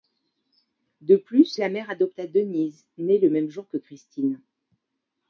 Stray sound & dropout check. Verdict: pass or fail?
pass